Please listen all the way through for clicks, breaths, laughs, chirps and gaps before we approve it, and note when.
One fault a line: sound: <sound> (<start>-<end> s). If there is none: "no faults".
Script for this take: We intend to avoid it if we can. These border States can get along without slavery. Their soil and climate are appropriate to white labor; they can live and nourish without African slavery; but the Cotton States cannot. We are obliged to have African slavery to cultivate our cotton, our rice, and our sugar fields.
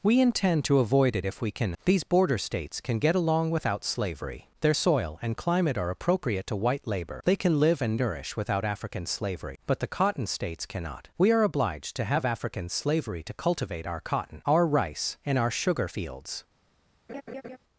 sound: laugh (17.1-17.6 s)